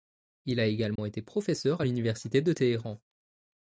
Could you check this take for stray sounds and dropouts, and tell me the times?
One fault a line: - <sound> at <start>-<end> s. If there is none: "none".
- dropout at 1.0-1.0 s